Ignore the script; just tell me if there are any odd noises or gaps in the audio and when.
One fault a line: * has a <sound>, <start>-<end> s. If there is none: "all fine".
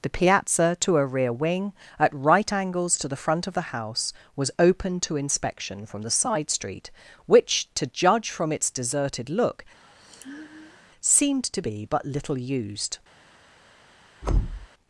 * has a sigh, 9.8-10.9 s
* has a thud, 14.2-14.7 s